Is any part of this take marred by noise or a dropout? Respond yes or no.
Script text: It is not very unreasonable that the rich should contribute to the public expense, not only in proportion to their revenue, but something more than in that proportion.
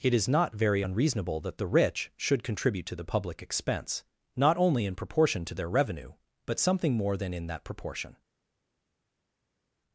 no